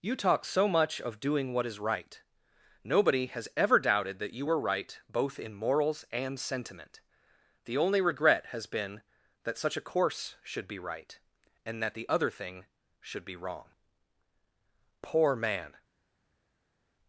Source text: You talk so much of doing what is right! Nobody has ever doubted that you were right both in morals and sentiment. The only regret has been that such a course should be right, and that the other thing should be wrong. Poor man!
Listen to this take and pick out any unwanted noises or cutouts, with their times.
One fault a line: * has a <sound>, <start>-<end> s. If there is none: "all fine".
all fine